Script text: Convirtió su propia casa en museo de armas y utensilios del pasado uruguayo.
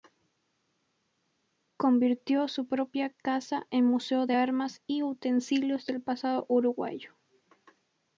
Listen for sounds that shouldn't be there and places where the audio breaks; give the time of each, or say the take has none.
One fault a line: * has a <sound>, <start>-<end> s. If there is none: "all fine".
all fine